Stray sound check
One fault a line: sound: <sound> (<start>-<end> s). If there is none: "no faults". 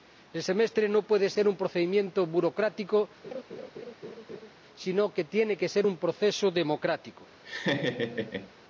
sound: laugh (3.2-4.5 s)
sound: laugh (7.4-8.5 s)